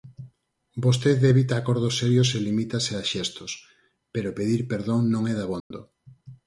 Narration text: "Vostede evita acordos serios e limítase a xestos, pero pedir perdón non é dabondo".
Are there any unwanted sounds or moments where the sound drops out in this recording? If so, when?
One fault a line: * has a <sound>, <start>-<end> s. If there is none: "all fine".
* has a dropout, 5.6-5.7 s